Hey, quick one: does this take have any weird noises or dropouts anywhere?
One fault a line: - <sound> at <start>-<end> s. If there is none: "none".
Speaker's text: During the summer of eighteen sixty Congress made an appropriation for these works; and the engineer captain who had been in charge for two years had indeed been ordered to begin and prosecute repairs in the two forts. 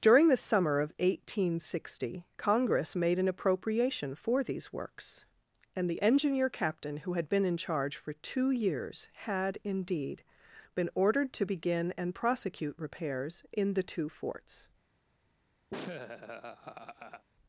- laugh at 15.7-17.3 s